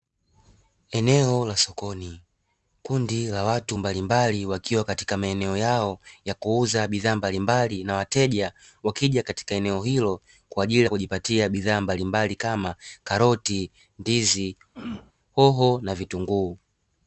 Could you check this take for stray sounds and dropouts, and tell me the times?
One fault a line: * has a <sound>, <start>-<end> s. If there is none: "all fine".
* has a throat clearing, 14.7-15.1 s